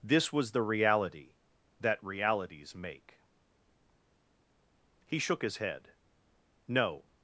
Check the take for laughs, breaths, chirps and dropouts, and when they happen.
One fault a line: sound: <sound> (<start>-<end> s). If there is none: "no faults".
no faults